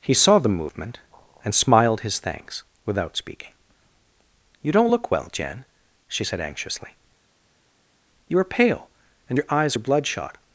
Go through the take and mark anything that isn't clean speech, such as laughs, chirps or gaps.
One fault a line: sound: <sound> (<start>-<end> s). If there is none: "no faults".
no faults